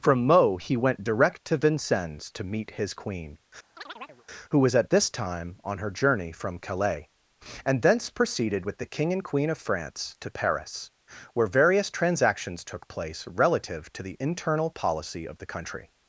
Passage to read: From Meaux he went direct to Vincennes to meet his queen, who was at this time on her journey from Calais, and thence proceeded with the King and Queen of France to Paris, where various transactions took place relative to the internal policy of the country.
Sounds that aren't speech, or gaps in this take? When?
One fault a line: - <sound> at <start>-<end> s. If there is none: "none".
- chirp at 3.8-4.3 s